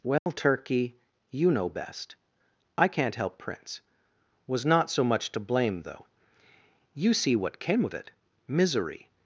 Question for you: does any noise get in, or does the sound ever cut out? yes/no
yes